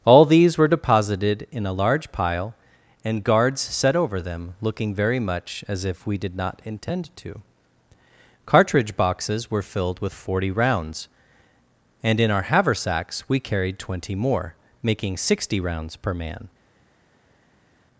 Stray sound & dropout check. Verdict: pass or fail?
pass